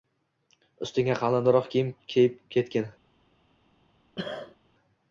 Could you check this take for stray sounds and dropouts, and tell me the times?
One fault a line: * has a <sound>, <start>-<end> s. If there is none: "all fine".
* has a cough, 4.2-4.6 s